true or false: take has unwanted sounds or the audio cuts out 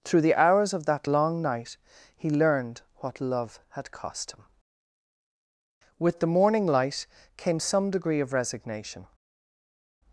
false